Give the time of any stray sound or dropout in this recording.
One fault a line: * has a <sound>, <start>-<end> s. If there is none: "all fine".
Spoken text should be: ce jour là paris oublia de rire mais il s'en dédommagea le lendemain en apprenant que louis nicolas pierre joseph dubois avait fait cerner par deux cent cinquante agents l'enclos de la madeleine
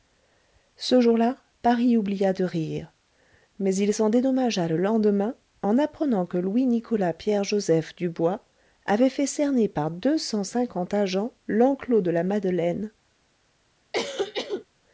* has a cough, 13.9-14.7 s